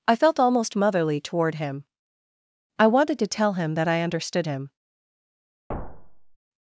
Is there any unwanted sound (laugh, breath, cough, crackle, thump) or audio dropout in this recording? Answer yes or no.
yes